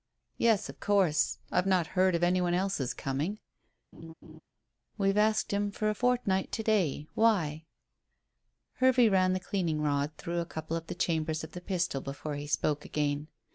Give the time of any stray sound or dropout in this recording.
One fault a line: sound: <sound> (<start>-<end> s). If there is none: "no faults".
sound: laugh (3.9-4.4 s)